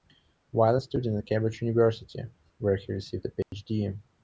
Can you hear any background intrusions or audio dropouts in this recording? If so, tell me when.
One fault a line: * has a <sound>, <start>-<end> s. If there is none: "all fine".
* has a dropout, 3.4-3.5 s